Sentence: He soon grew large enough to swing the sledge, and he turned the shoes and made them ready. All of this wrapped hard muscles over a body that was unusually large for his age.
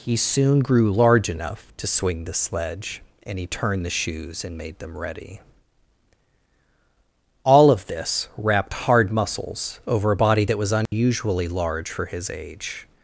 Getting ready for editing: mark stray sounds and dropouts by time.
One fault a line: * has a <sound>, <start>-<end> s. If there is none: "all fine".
* has a dropout, 10.9-10.9 s